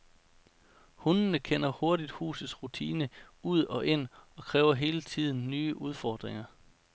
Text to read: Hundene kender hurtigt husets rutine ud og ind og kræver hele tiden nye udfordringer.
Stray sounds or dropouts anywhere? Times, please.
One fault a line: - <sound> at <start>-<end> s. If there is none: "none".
none